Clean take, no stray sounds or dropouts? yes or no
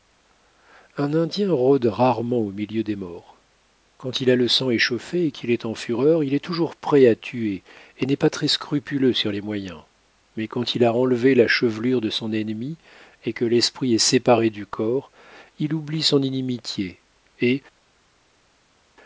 yes